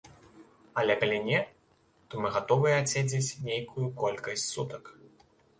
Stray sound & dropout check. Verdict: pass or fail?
pass